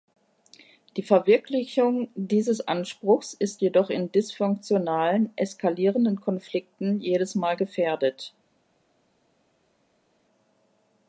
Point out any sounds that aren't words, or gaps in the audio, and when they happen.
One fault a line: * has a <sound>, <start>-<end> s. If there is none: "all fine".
all fine